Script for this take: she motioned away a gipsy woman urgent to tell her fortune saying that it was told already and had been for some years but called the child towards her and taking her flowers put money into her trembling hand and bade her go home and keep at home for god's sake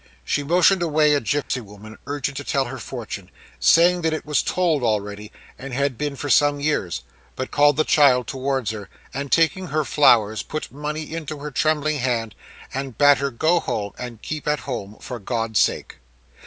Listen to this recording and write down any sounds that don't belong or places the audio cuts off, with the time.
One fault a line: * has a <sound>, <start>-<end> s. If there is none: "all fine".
* has a dropout, 1.4-1.5 s